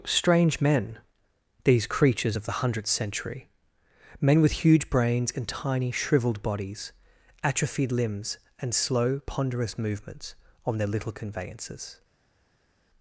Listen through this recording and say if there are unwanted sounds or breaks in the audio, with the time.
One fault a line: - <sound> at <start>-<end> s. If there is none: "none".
none